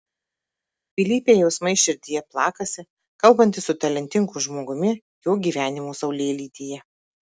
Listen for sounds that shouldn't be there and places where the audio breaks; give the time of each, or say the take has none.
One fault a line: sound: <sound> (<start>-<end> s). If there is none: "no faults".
no faults